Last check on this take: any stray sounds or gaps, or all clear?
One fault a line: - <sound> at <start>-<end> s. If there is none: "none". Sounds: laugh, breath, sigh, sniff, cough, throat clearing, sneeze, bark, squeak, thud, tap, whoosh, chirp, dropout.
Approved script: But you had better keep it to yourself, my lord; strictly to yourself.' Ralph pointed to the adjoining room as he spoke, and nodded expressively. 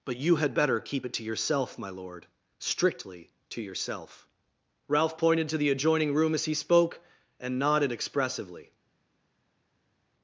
none